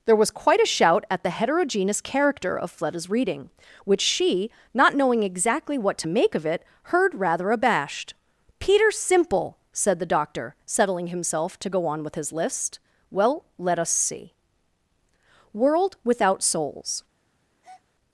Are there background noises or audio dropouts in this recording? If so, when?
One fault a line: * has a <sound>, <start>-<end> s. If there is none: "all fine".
* has a breath, 17.6-17.8 s